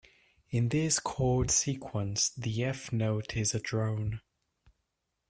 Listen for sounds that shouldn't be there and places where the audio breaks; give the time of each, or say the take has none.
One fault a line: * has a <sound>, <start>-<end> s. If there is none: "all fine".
all fine